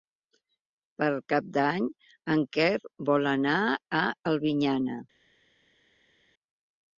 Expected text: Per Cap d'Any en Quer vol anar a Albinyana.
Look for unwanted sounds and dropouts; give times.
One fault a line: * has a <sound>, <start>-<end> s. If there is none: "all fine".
all fine